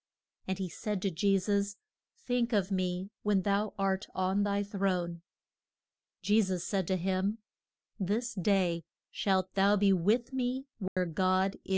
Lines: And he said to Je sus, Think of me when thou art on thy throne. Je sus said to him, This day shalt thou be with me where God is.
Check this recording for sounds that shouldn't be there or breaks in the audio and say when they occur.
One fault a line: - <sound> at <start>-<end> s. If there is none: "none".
- dropout at 10.9-11.0 s